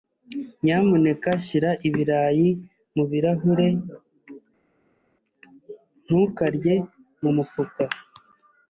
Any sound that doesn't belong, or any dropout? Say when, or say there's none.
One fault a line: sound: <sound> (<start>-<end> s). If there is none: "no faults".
no faults